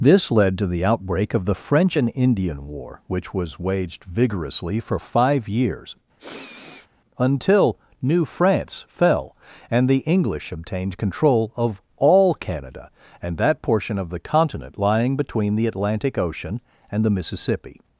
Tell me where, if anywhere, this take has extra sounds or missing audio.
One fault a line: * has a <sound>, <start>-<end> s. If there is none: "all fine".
* has a sniff, 6.2-6.9 s